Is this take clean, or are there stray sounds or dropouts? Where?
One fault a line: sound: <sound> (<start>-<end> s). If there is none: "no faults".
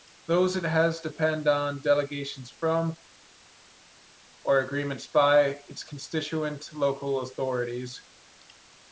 no faults